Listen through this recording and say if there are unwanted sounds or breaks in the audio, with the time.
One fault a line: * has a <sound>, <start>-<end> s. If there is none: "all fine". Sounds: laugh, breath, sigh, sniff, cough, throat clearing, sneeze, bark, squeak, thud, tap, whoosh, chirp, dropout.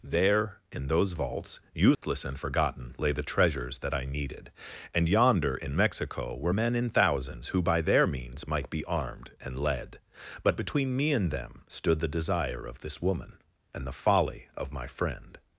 * has a dropout, 1.9-2.0 s